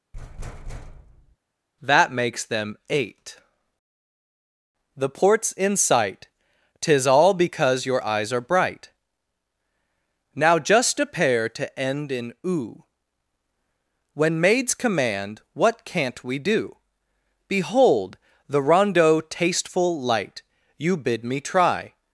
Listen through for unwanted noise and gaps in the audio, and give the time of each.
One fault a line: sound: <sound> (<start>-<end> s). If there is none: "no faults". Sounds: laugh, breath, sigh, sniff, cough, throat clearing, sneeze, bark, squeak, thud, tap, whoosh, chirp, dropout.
sound: thud (0.1-1.4 s)